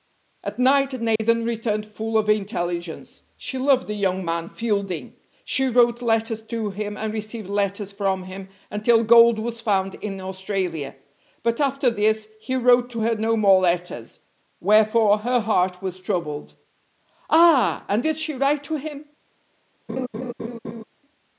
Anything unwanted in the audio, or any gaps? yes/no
yes